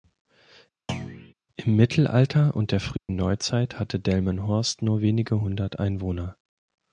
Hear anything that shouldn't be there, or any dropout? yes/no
yes